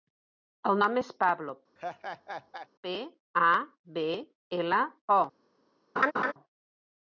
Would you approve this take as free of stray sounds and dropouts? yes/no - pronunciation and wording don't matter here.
no